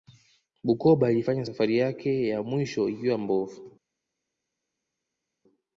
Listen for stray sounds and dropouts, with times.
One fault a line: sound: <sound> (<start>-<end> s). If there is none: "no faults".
no faults